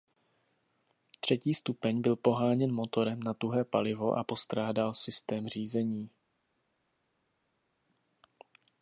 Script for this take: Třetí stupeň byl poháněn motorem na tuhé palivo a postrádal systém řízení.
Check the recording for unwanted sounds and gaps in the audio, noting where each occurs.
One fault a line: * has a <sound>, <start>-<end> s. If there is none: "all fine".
all fine